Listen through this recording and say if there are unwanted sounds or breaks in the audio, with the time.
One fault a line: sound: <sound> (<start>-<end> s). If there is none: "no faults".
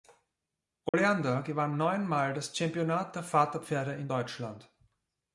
sound: dropout (0.9-0.9 s)